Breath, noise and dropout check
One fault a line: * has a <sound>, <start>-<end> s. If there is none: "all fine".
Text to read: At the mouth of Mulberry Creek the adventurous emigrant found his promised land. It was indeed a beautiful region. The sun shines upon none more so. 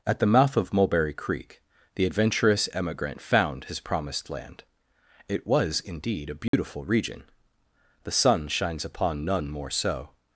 * has a dropout, 6.5-6.5 s